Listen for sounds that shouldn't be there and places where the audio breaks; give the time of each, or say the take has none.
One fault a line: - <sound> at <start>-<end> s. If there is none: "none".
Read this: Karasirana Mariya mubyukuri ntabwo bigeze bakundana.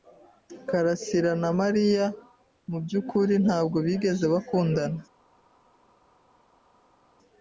none